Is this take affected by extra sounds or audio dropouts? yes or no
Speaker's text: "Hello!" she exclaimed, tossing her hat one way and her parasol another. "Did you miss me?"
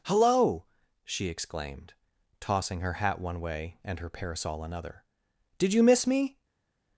no